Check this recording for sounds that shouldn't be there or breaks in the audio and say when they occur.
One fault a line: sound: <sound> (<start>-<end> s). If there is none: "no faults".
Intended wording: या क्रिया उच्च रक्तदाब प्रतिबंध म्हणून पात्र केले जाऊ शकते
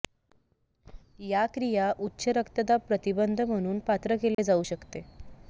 sound: dropout (4.3-4.4 s)